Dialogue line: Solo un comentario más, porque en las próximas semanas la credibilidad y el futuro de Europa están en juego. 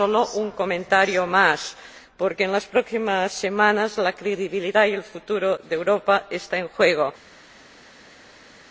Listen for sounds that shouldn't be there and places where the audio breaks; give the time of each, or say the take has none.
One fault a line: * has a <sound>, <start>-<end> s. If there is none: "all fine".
all fine